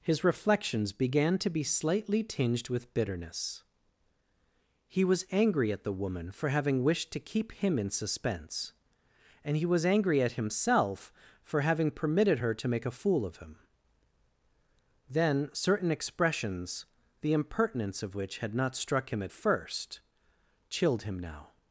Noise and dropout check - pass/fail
pass